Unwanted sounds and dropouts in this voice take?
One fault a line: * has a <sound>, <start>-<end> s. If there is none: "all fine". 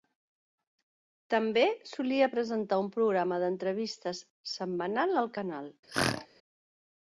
* has a throat clearing, 5.9-6.3 s